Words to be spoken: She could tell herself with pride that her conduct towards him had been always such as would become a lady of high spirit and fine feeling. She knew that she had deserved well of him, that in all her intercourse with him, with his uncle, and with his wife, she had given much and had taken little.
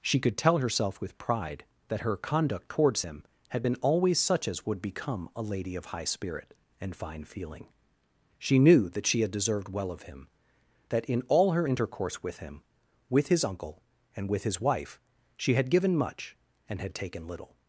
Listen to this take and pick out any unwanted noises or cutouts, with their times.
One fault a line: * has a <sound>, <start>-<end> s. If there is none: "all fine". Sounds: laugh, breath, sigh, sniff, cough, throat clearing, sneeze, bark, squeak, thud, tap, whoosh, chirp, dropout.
all fine